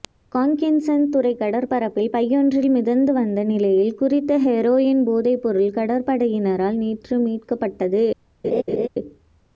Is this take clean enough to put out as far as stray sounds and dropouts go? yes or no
no